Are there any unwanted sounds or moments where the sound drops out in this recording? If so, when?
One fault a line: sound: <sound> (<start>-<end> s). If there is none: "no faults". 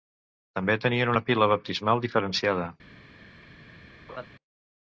sound: laugh (4.1-4.3 s)